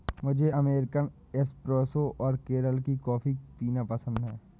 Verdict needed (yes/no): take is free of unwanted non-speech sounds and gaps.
yes